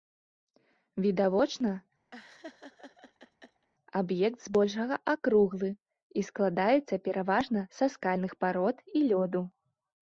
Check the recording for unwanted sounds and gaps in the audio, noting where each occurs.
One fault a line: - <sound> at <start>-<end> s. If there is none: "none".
- laugh at 2.1-3.7 s